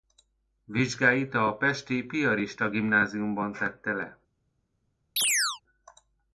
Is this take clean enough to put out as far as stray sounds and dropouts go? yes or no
no